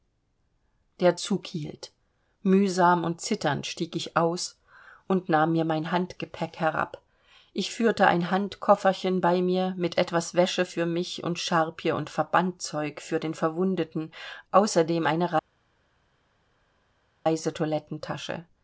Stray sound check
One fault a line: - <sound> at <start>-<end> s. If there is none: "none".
none